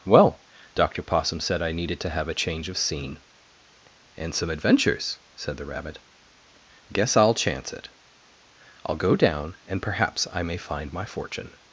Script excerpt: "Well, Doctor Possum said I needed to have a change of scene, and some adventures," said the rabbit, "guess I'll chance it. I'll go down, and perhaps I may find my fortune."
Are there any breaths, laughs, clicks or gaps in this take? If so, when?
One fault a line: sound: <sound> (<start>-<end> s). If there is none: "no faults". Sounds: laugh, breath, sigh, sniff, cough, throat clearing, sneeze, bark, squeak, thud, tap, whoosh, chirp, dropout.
no faults